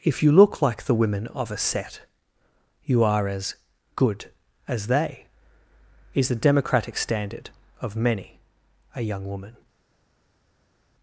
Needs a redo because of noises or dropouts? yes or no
no